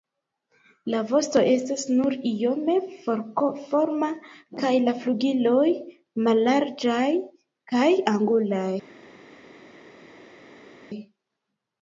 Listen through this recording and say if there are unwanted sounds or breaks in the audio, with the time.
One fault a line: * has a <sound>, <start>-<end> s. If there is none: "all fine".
all fine